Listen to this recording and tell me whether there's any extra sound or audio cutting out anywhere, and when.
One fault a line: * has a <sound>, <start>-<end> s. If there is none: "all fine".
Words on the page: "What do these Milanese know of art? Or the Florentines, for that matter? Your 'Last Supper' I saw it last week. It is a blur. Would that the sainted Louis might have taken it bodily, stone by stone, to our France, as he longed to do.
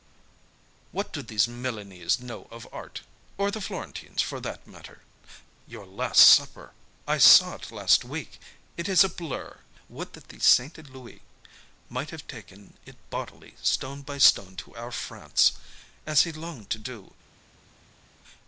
all fine